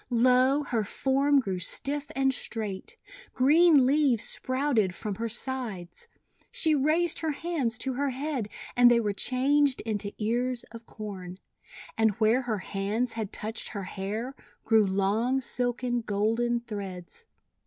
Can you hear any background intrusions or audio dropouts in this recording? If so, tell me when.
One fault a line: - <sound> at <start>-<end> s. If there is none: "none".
none